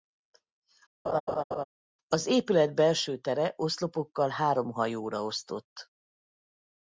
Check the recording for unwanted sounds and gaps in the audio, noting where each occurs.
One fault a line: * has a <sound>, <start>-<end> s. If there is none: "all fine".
* has a laugh, 1.1-1.6 s